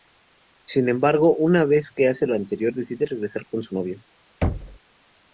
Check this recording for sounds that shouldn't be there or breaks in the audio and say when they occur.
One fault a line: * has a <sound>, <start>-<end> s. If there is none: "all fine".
* has a thud, 4.4-4.8 s